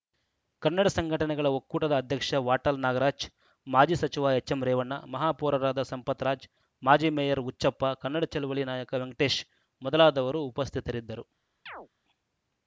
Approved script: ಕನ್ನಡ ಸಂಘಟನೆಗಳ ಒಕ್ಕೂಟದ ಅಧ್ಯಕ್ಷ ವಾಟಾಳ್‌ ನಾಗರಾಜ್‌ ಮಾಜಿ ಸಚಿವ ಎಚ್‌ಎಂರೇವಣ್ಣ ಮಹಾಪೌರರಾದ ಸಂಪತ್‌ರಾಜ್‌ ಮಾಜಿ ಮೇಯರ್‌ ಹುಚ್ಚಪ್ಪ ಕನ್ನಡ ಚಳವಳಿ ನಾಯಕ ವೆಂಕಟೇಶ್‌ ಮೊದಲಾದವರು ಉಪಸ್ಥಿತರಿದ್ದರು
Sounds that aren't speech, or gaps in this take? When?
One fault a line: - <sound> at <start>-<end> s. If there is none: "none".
- chirp at 11.7-11.9 s